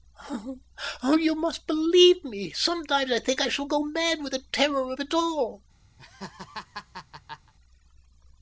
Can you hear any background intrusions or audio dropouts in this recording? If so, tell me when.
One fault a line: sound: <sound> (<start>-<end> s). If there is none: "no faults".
sound: laugh (6.0-7.5 s)